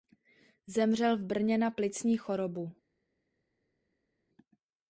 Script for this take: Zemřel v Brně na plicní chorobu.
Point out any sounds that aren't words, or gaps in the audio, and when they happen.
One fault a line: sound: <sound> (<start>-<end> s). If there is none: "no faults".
no faults